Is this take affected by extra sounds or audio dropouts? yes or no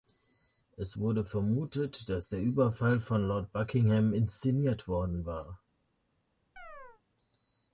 yes